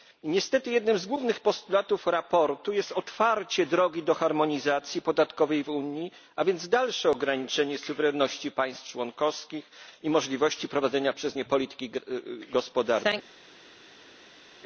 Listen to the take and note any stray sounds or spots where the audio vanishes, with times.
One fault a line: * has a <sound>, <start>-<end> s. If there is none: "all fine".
all fine